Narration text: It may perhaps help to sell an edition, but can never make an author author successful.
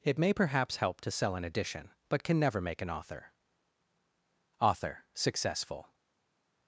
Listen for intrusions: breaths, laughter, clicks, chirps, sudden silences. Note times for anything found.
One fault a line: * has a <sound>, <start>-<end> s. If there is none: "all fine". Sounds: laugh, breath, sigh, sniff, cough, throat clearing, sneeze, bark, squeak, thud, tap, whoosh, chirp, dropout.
all fine